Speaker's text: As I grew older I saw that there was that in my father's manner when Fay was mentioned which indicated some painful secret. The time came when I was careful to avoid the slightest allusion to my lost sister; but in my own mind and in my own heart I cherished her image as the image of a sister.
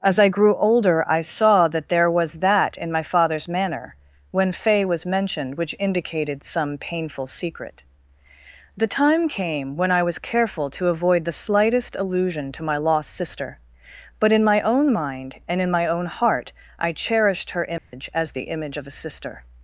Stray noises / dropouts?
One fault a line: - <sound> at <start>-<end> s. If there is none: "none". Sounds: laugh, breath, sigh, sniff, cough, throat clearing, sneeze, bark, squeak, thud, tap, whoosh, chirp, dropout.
- dropout at 17.8-17.9 s